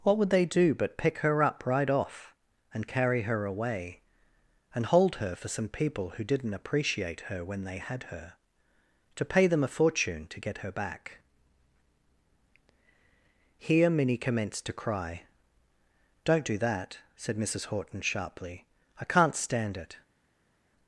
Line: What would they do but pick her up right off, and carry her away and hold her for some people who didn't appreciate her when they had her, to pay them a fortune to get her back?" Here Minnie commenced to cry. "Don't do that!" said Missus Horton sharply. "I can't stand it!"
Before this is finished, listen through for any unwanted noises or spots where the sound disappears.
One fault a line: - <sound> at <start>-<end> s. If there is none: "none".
none